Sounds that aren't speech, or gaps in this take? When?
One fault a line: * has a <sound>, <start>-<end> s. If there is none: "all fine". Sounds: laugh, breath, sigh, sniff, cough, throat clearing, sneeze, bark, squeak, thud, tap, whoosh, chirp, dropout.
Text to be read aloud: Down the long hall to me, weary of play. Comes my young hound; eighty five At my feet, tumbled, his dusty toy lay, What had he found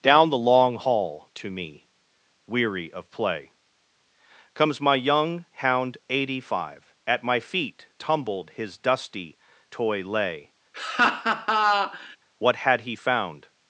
* has a laugh, 10.7-12.2 s